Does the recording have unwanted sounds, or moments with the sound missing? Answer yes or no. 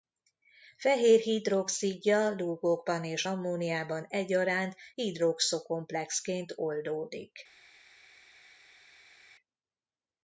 no